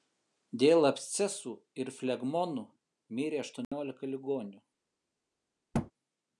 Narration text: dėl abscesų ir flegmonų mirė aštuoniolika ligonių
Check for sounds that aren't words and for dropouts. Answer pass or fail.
fail